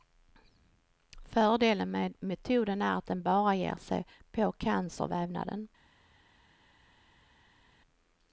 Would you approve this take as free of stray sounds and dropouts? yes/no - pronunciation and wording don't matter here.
yes